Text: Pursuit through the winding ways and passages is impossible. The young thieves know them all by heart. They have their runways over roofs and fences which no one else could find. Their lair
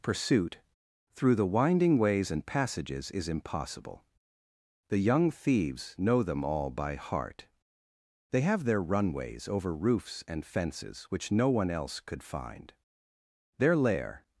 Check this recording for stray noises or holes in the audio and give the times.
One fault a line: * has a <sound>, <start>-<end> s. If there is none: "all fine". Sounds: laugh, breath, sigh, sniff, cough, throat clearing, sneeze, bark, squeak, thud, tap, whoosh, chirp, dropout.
all fine